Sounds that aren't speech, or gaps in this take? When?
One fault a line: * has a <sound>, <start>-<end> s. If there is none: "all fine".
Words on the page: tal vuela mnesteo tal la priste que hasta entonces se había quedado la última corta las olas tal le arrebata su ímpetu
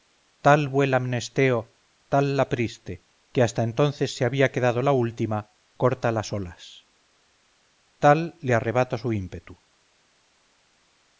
all fine